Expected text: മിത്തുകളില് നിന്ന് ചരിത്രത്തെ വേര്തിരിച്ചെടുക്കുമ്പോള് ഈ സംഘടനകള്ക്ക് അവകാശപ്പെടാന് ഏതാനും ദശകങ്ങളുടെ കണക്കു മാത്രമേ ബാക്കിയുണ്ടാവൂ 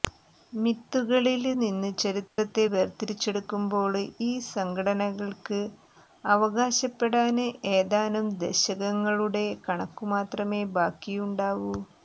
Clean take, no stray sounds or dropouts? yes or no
no